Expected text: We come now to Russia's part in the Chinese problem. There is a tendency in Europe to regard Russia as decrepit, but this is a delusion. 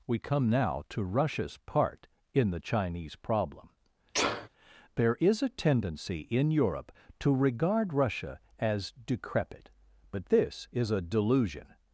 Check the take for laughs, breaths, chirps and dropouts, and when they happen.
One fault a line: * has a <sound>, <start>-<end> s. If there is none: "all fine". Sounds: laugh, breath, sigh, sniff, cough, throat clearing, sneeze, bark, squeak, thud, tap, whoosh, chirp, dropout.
* has a sneeze, 4.1-4.5 s